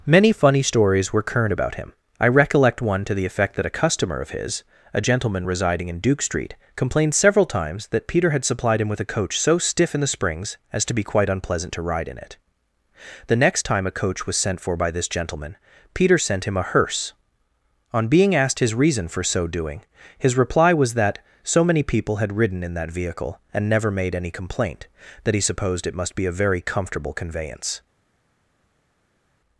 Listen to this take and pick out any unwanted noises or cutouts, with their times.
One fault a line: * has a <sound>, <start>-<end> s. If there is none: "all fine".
all fine